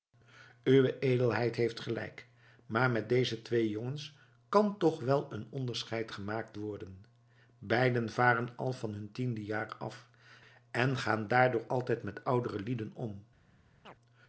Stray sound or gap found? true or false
true